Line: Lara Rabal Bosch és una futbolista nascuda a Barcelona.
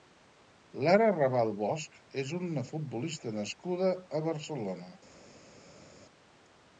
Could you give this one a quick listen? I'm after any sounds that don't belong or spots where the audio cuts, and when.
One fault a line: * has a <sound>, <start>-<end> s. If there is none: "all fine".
all fine